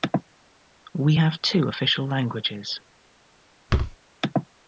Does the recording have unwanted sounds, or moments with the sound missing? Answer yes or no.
yes